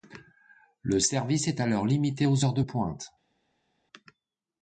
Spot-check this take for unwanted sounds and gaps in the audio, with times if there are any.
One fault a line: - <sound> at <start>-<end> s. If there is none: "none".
none